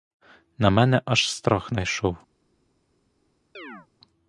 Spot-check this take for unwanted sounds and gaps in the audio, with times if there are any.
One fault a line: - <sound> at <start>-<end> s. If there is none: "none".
- chirp at 3.5-3.9 s